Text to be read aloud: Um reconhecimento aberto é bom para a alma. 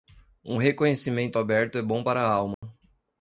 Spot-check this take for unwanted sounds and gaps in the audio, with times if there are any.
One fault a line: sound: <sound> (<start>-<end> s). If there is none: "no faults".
sound: dropout (2.5-2.6 s)